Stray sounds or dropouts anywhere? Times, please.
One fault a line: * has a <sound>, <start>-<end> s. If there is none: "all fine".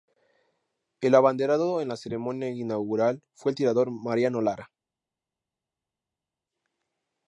all fine